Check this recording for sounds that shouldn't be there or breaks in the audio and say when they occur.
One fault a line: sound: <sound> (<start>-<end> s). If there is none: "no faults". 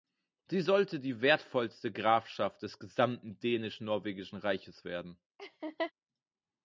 sound: laugh (5.4-5.9 s)